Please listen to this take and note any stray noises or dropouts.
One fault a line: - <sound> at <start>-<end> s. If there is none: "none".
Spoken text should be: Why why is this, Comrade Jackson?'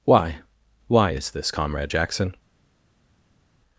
none